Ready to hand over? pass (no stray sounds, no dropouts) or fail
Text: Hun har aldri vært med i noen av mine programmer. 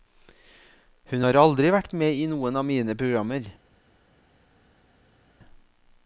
pass